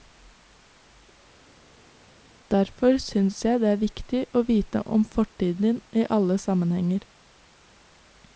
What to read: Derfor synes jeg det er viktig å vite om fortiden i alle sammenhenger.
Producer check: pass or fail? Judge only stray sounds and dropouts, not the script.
pass